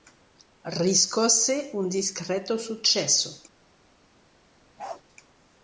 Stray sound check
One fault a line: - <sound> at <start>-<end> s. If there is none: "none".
- bark at 4.8-5.0 s